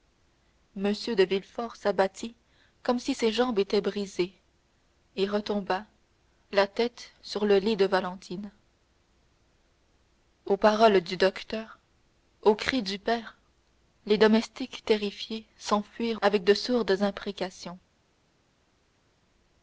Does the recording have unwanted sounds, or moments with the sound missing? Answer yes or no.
no